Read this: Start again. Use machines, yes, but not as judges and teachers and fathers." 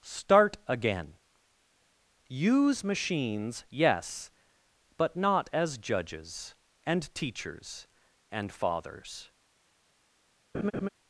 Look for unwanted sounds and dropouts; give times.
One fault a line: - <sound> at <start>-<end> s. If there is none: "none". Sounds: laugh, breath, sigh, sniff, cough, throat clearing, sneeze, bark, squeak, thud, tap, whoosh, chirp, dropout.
- laugh at 10.5-10.9 s